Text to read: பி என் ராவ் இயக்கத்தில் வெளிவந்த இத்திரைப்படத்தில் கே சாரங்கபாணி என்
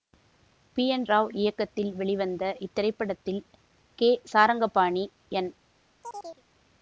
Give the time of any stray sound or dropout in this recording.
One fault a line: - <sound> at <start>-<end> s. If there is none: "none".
- chirp at 6.0-6.4 s